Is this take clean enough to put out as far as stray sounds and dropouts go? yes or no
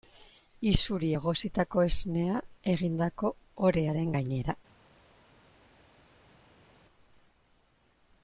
yes